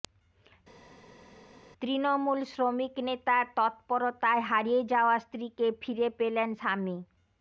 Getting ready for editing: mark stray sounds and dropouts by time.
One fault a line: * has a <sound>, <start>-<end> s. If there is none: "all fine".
all fine